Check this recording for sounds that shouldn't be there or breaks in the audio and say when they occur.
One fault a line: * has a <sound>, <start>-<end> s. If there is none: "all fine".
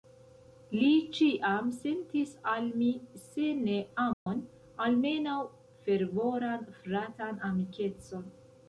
* has a dropout, 4.1-4.3 s